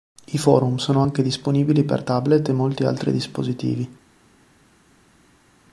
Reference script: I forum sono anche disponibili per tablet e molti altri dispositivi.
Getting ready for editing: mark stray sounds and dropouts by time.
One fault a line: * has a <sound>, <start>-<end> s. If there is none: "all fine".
all fine